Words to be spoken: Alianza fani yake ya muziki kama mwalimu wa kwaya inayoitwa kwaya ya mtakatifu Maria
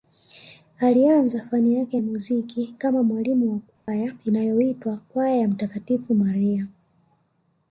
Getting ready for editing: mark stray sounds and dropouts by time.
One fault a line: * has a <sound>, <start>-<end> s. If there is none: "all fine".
* has a dropout, 3.7-3.9 s